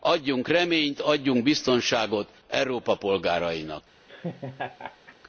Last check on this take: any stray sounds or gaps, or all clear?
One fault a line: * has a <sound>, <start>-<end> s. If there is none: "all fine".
* has a laugh, 4.1-5.2 s